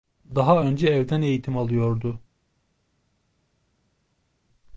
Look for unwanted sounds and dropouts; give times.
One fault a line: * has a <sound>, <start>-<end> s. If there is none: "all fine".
all fine